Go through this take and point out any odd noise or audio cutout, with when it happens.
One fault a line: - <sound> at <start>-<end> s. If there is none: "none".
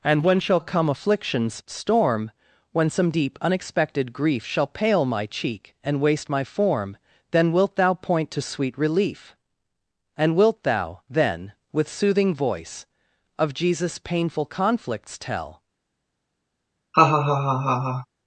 - laugh at 16.9-18.1 s